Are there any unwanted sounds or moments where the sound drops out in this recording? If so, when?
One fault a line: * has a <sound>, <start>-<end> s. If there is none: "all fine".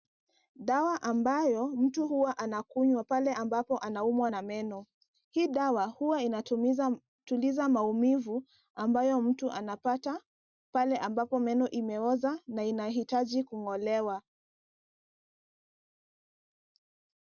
all fine